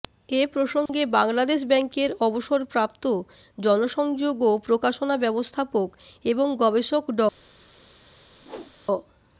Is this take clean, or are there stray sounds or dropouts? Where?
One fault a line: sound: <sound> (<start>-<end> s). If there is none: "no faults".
sound: dropout (0.9-0.9 s)
sound: whoosh (8.4-8.8 s)